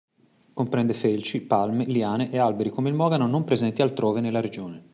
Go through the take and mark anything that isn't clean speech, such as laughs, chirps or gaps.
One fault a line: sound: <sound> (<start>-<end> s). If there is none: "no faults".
no faults